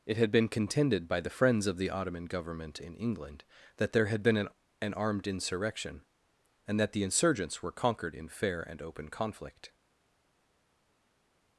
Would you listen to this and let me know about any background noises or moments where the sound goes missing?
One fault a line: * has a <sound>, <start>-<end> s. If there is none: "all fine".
all fine